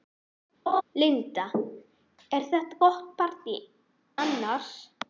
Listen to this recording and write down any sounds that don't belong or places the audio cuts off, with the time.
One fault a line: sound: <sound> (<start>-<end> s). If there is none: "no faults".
sound: laugh (0.7-0.8 s)